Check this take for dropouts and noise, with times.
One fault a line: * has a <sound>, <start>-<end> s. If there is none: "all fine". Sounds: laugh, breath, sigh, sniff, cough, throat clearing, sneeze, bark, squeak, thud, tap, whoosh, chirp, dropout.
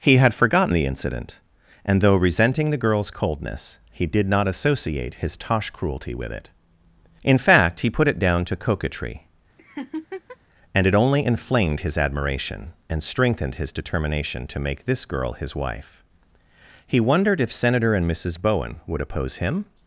* has a laugh, 9.6-10.4 s